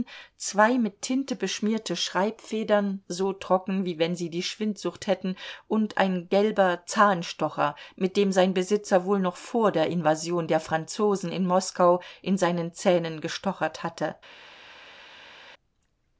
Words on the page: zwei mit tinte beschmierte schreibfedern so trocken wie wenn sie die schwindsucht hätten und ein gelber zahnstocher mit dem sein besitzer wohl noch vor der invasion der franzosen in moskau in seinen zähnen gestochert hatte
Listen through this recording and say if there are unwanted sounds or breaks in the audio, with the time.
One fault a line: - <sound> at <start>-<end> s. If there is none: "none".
none